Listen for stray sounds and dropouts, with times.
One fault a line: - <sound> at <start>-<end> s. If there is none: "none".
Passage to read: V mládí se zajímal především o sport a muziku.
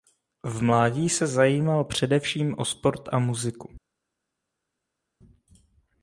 none